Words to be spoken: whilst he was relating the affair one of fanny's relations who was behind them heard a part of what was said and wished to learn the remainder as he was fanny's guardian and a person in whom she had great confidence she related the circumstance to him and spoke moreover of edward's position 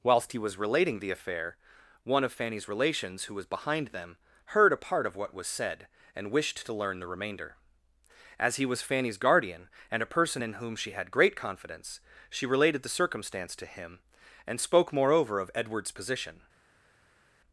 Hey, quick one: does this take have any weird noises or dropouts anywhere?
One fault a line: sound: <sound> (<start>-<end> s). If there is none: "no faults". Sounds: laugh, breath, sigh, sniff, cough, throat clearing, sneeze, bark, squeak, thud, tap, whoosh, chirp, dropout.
no faults